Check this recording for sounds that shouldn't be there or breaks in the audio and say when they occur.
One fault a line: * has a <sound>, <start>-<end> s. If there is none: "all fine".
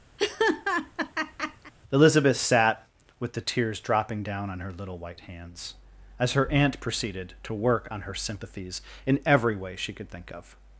* has a laugh, 0.2-1.7 s